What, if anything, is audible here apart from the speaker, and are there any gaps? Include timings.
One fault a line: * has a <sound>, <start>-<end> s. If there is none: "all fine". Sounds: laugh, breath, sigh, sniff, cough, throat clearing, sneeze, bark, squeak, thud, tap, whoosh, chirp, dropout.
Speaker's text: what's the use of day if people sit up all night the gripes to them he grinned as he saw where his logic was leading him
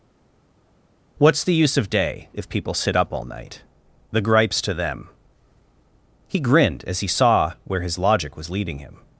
all fine